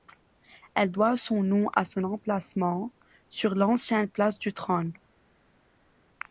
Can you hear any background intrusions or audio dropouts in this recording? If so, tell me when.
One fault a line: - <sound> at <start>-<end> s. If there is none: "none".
none